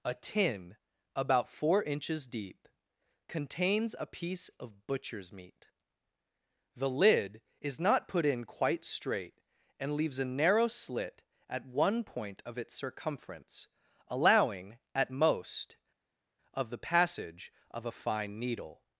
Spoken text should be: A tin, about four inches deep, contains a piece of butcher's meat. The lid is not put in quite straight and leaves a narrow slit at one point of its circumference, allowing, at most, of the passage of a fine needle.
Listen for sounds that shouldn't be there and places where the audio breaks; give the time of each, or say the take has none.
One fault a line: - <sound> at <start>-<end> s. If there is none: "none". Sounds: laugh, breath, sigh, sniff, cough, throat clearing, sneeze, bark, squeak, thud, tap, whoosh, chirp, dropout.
none